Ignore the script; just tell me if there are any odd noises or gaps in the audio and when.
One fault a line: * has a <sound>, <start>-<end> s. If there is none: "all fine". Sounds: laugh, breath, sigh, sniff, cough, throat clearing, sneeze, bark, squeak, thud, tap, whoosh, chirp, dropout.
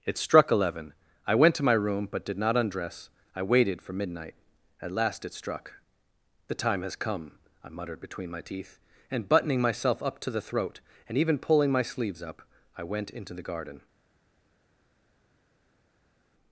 all fine